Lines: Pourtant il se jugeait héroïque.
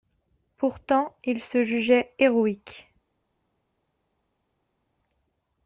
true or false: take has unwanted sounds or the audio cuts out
false